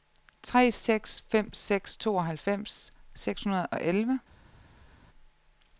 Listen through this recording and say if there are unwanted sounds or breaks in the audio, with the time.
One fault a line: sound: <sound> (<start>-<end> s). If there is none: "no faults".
no faults